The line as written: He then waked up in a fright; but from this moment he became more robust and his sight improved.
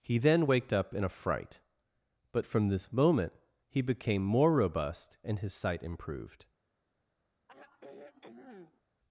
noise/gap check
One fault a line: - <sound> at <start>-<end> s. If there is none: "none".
- sigh at 7.5-8.8 s